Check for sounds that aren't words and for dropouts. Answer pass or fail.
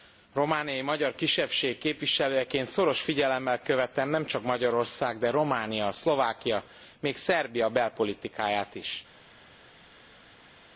pass